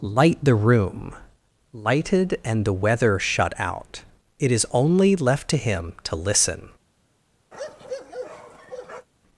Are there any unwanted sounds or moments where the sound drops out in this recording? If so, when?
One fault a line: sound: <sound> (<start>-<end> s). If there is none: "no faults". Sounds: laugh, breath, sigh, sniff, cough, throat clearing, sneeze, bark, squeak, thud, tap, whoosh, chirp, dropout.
sound: bark (7.5-9.1 s)